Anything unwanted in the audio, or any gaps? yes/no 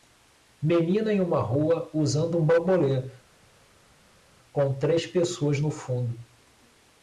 no